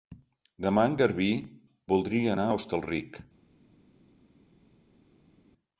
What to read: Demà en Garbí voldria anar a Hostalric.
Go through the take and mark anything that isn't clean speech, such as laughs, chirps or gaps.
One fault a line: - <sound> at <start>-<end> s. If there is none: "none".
none